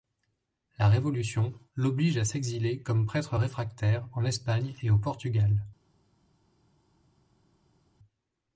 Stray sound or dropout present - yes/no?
no